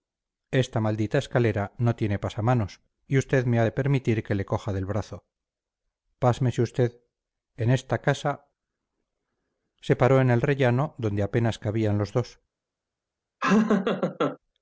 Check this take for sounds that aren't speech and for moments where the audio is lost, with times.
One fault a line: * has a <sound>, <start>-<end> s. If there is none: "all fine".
* has a laugh, 13.4-14.4 s